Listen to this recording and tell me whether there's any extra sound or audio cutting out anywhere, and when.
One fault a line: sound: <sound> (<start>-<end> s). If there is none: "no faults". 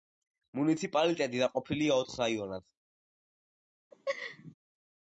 sound: laugh (3.9-4.5 s)